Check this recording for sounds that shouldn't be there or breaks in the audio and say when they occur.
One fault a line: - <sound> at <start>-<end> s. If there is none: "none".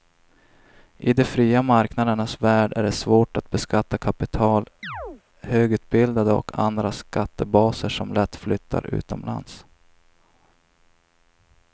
- chirp at 4.8-5.2 s